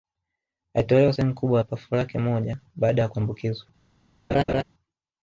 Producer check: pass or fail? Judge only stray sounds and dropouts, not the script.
fail